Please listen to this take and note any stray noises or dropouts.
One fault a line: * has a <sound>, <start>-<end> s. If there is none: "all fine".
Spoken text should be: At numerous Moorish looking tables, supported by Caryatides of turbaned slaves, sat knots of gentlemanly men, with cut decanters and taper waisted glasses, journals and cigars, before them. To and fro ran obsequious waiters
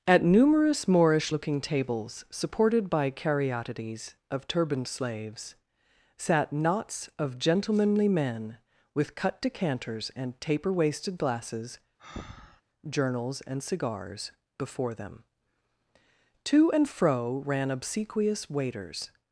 * has a breath, 12.0-12.6 s